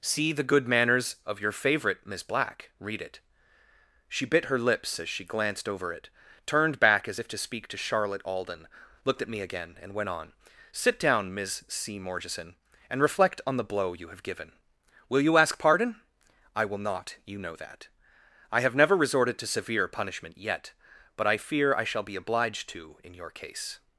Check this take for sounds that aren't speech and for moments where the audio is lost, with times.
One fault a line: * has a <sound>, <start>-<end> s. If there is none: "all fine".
all fine